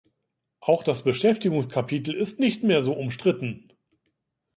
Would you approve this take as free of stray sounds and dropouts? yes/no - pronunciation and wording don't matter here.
yes